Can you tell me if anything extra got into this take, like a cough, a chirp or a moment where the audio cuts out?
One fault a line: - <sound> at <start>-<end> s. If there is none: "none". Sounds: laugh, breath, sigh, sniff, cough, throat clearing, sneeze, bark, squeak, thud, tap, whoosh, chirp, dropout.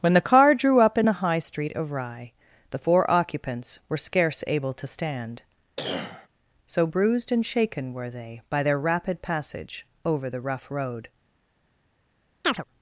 - cough at 5.8-6.3 s
- chirp at 12.4-12.6 s